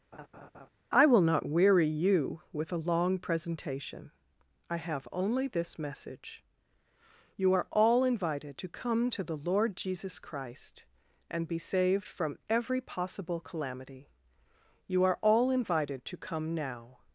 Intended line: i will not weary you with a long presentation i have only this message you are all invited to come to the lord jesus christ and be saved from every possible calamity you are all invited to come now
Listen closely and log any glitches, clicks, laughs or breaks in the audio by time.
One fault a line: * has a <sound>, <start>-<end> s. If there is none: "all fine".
* has a laugh, 0.1-0.7 s